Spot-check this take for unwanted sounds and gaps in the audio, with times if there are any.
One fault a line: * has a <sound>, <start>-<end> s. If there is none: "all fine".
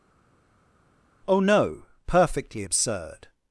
all fine